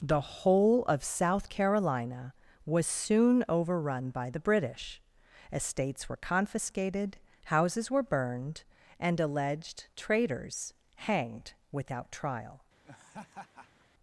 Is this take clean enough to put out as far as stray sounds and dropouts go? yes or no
no